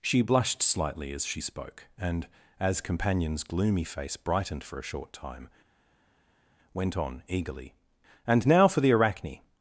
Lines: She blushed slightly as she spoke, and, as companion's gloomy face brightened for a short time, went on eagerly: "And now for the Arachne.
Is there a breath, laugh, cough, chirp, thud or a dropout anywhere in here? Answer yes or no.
no